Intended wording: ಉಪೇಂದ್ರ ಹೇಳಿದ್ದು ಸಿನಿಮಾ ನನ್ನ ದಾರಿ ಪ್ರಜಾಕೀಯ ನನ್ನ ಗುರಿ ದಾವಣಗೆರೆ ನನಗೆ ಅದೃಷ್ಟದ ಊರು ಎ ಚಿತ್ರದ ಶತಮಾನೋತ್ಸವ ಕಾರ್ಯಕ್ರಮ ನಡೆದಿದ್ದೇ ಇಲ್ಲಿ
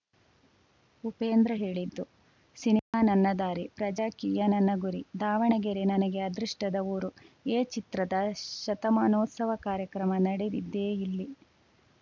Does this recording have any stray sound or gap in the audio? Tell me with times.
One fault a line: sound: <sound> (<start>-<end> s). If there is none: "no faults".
sound: dropout (2.8-2.9 s)